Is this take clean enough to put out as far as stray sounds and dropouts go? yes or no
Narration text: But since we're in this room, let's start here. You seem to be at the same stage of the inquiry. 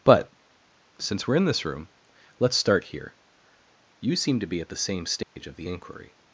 no